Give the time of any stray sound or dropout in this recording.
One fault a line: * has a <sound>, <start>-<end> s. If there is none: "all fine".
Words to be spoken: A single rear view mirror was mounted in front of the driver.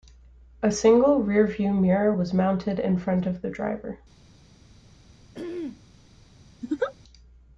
* has a throat clearing, 5.3-5.8 s
* has a laugh, 6.6-6.9 s